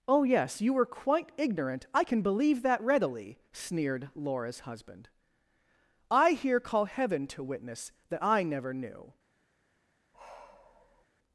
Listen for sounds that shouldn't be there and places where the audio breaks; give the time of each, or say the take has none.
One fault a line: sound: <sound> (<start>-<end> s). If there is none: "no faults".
sound: sigh (10.1-11.1 s)